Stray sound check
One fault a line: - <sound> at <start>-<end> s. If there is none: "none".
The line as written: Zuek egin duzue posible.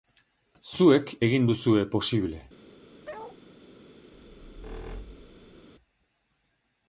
- bark at 3.0-3.4 s
- squeak at 4.1-5.7 s